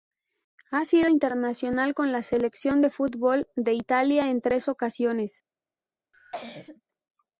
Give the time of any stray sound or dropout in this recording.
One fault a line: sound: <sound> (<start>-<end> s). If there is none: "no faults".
sound: cough (6.1-6.8 s)